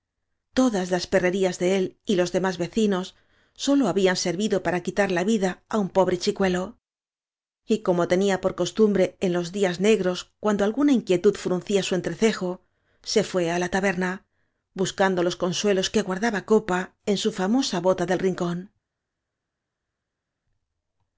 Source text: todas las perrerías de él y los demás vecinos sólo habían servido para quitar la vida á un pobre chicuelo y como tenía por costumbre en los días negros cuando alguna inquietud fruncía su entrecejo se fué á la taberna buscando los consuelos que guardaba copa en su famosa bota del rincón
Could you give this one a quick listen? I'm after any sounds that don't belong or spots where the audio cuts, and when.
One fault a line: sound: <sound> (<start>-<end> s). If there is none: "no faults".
no faults